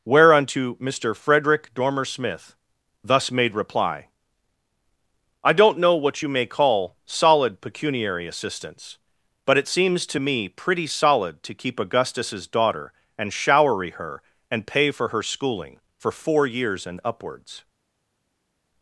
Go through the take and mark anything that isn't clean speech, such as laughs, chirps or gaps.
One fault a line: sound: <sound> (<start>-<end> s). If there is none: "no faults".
no faults